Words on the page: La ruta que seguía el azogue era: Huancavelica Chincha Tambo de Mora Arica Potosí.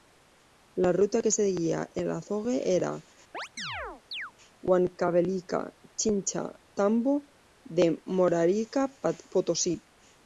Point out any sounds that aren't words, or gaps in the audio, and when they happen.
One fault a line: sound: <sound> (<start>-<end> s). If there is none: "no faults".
sound: chirp (3.3-4.3 s)